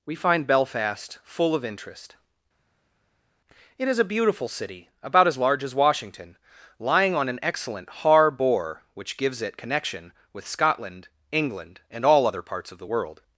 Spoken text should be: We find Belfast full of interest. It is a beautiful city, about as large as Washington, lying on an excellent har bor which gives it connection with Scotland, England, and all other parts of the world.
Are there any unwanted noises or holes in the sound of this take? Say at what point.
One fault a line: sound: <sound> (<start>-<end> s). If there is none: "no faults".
no faults